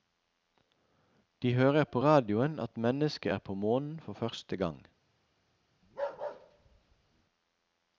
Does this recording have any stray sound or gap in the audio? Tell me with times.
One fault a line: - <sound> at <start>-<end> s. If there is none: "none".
- bark at 5.8-7.2 s